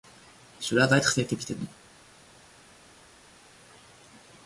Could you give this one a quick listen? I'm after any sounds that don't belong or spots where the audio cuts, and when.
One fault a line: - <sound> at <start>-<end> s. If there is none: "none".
none